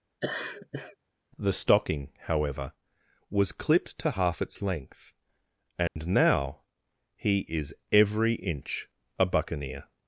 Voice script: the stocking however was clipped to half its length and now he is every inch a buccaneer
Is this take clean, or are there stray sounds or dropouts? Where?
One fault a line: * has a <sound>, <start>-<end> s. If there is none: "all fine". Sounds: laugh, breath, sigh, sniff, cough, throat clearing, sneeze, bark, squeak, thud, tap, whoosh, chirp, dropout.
* has a laugh, 0.2-1.0 s
* has a dropout, 5.9-6.0 s